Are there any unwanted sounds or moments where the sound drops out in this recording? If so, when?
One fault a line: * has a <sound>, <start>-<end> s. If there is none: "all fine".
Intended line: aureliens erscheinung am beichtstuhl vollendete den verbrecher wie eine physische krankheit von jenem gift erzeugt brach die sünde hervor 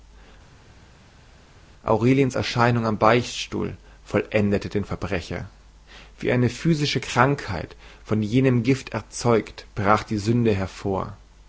all fine